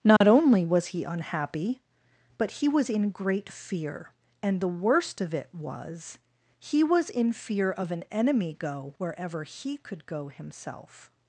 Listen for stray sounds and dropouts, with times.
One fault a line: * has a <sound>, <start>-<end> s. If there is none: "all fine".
* has a dropout, 0.2-0.2 s